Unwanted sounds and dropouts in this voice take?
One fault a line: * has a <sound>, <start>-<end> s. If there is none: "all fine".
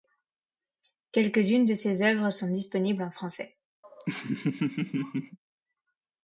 * has a laugh, 3.8-5.4 s